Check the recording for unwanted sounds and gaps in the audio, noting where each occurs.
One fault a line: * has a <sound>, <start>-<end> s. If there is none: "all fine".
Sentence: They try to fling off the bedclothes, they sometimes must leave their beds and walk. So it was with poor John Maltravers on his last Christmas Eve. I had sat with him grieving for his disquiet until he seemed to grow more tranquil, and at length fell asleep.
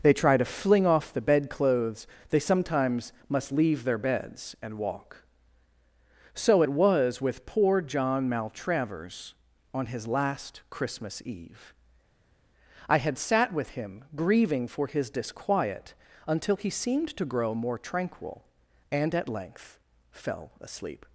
all fine